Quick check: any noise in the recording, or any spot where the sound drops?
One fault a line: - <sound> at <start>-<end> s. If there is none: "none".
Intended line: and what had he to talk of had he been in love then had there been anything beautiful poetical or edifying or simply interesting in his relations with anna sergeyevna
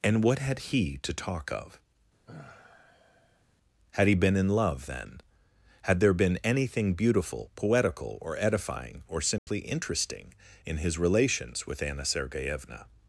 - sigh at 2.3-3.4 s
- dropout at 9.4-9.5 s